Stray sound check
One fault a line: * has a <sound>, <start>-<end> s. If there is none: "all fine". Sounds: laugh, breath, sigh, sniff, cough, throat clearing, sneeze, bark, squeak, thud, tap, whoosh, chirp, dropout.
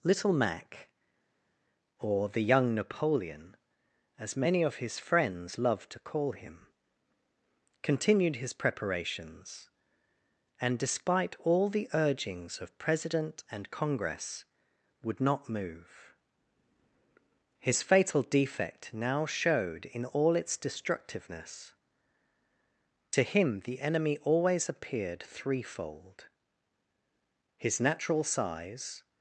all fine